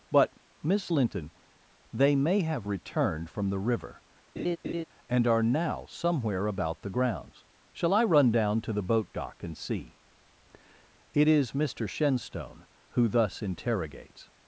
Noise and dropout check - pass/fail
fail